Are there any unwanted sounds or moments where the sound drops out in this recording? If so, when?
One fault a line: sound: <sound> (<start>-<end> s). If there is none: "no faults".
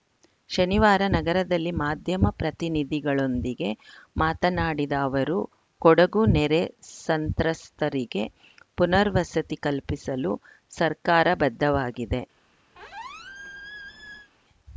sound: squeak (12.7-14.3 s)